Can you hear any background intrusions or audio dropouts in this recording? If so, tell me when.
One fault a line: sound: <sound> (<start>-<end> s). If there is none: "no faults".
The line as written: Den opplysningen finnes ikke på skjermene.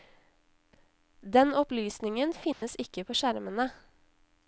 sound: dropout (2.5-2.6 s)